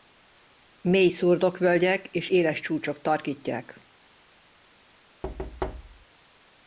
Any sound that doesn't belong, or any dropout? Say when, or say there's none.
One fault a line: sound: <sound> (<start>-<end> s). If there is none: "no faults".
sound: thud (5.2-6.1 s)